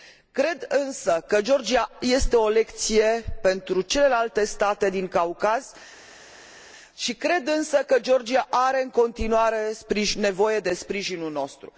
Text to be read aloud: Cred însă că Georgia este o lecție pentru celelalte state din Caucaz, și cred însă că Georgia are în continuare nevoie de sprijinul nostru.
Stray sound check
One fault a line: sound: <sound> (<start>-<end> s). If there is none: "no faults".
no faults